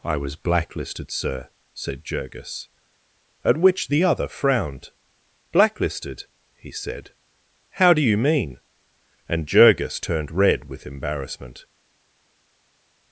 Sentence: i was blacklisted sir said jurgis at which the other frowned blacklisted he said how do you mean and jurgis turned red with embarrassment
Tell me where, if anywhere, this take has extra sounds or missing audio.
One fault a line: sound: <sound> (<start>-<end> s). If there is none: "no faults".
no faults